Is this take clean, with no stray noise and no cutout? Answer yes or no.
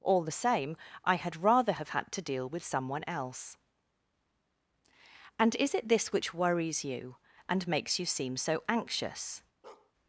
no